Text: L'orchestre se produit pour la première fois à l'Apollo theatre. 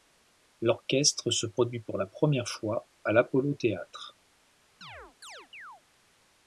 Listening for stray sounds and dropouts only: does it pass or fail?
fail